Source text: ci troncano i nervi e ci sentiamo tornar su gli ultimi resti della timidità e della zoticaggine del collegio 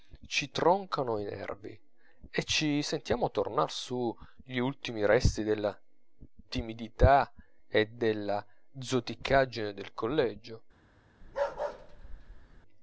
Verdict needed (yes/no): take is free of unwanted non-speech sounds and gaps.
no